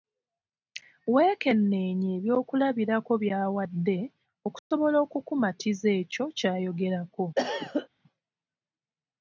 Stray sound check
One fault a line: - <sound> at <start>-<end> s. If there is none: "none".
- dropout at 4.6-4.7 s
- cough at 7.4-7.9 s